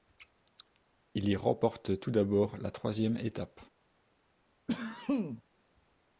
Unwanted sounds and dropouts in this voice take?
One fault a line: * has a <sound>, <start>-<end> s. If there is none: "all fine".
* has a sneeze, 4.7-5.4 s